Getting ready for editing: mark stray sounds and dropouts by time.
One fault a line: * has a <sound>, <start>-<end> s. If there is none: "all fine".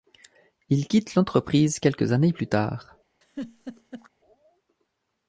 * has a laugh, 3.2-4.1 s